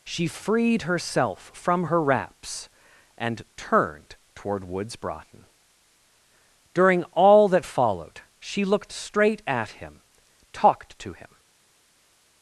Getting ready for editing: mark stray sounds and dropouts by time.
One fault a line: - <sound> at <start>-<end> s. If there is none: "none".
none